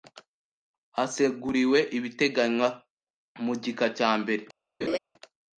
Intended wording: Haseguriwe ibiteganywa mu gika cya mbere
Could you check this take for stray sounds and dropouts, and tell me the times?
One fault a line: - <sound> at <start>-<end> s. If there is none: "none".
- laugh at 4.8-5.0 s